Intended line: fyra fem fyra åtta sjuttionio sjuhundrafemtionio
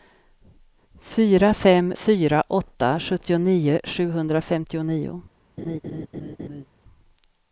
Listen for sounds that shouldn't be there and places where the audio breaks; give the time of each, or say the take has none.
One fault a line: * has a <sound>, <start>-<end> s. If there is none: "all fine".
* has a laugh, 5.6-6.7 s